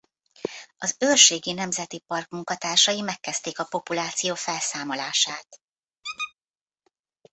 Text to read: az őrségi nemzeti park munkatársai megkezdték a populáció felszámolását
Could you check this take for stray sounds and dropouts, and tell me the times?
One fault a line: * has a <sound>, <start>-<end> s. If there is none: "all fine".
* has a squeak, 6.0-6.3 s